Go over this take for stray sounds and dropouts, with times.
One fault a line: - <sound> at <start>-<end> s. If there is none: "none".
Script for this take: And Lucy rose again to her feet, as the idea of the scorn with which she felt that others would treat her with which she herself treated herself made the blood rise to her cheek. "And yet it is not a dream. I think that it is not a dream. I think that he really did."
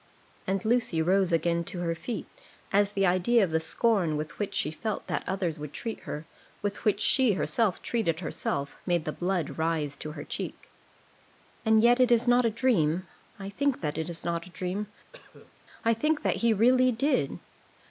- cough at 15.1-15.5 s